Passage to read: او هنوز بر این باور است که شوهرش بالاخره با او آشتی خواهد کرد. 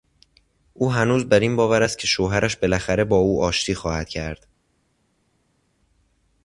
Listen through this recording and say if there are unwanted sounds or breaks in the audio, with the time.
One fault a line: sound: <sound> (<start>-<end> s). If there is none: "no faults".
no faults